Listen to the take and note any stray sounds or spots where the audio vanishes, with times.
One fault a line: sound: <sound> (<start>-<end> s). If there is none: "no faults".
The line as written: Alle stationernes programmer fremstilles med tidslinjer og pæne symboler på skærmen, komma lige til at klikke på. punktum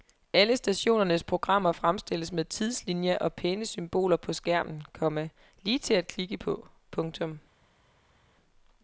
no faults